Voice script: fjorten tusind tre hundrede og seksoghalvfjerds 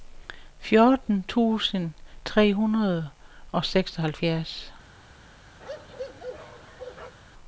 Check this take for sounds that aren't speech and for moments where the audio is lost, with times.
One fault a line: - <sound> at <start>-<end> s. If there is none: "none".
- bark at 5.6-7.1 s